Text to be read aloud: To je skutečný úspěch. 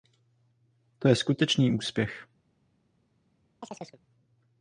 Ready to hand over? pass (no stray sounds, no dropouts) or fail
fail